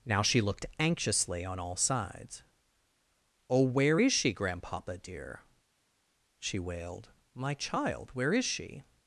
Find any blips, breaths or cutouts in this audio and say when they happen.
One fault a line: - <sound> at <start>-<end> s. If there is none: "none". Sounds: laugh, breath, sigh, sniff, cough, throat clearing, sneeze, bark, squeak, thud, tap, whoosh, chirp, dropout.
none